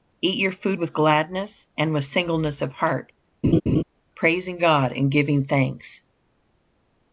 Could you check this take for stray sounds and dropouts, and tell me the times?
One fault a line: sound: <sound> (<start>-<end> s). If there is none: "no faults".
sound: laugh (3.4-3.8 s)